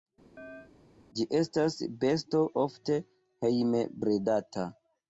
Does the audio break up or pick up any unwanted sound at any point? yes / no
yes